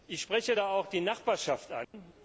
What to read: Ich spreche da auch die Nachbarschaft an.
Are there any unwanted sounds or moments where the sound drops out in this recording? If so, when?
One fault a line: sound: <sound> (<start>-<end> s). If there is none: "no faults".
sound: dropout (1.8-1.9 s)